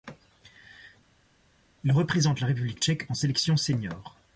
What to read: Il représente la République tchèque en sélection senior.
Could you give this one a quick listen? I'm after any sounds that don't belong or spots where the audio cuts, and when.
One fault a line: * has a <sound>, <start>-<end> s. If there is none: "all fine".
all fine